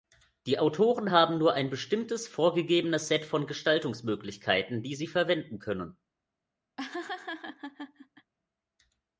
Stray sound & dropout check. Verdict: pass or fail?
fail